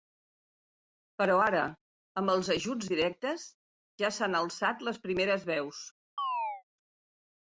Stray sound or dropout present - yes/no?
yes